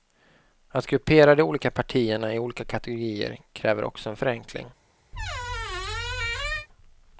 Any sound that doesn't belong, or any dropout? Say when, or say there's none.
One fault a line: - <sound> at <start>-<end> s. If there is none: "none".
- squeak at 5.1-6.7 s